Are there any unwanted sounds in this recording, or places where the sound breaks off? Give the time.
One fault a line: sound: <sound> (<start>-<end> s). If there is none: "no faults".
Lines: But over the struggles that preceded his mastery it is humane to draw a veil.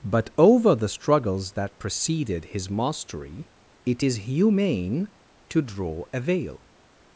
no faults